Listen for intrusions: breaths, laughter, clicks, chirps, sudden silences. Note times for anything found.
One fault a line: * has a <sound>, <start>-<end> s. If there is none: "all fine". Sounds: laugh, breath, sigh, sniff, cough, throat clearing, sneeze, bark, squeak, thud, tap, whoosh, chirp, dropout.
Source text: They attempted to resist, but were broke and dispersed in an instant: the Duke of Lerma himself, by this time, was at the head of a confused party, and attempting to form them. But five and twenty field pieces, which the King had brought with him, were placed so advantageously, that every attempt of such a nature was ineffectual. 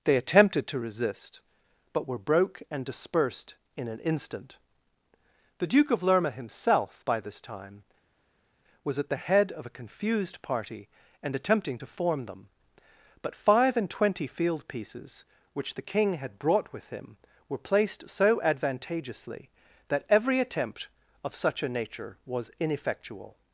all fine